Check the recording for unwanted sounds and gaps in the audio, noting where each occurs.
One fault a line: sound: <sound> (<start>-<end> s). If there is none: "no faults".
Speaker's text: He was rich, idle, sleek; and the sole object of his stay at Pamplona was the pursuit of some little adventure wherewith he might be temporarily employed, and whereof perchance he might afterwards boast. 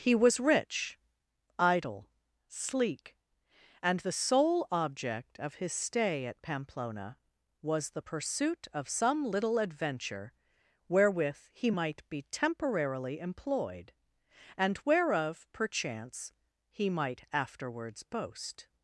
no faults